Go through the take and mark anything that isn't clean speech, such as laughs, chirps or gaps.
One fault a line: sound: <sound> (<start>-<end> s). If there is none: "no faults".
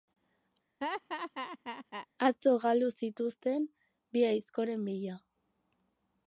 sound: laugh (0.8-2.1 s)